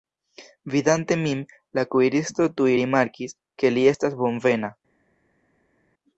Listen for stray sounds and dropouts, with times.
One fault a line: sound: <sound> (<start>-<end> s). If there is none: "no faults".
no faults